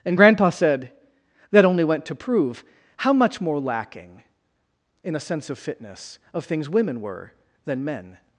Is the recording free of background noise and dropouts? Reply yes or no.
yes